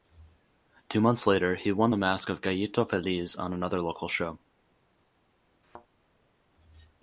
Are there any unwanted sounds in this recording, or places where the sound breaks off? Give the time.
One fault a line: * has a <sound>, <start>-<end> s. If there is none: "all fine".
* has a thud, 5.6-5.9 s